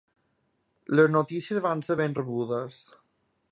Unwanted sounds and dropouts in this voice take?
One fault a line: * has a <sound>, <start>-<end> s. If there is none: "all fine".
all fine